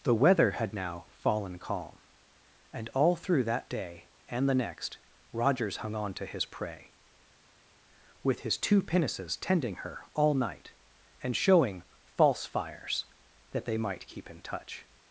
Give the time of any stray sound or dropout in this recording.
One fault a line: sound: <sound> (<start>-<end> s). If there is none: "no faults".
no faults